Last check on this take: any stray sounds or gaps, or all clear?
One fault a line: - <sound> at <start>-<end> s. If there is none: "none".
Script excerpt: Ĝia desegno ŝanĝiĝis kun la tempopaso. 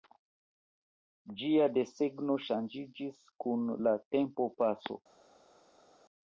none